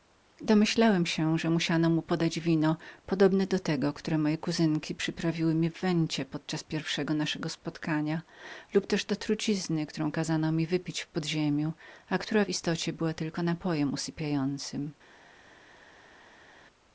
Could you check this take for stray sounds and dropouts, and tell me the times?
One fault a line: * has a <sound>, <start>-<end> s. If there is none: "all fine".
all fine